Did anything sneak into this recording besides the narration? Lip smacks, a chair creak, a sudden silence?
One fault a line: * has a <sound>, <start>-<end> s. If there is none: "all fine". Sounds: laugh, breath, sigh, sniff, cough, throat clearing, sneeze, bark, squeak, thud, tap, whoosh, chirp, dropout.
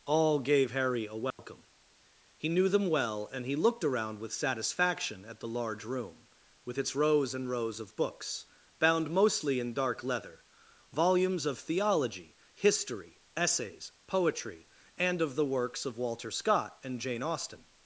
* has a dropout, 1.3-1.4 s